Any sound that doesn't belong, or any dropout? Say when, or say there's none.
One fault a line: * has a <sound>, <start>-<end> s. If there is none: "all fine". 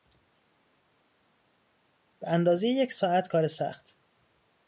all fine